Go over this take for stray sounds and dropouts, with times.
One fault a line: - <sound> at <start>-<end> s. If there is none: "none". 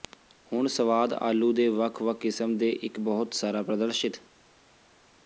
none